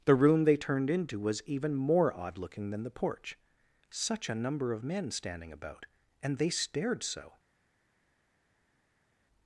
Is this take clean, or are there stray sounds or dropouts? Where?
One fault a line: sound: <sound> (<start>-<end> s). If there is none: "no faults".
no faults